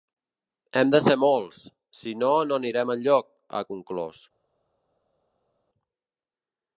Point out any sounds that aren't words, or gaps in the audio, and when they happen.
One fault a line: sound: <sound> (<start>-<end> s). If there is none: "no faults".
no faults